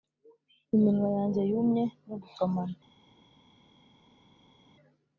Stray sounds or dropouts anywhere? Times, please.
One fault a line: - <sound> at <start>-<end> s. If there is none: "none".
none